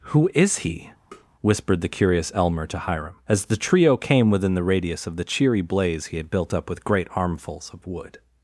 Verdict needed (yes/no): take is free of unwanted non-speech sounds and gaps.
no